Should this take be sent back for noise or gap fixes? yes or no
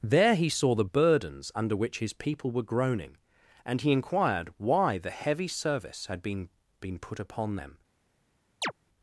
yes